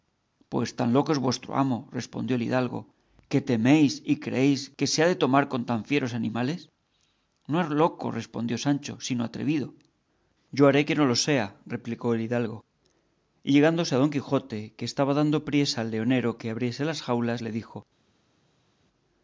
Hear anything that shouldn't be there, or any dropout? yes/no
no